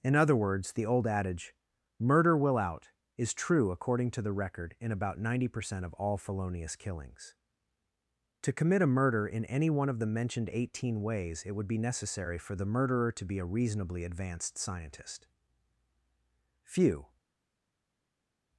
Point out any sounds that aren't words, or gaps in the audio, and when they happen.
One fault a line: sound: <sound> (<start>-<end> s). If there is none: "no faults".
no faults